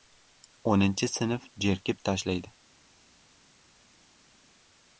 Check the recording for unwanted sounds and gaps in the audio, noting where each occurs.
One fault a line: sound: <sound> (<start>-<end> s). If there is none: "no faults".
no faults